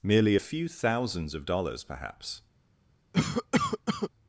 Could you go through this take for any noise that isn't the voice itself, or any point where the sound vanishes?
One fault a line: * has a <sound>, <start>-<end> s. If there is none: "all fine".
* has a cough, 3.1-4.1 s